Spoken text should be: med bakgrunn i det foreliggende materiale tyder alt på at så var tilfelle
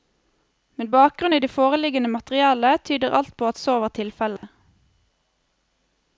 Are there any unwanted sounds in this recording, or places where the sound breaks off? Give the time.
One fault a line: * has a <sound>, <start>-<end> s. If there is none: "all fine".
* has a dropout, 4.4-4.4 s